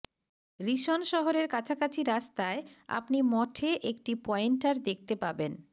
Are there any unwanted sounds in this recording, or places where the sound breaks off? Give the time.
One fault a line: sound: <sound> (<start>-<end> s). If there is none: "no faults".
no faults